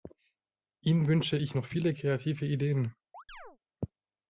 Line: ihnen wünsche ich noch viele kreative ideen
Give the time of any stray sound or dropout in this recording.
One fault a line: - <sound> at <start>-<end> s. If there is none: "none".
- chirp at 3.1-3.6 s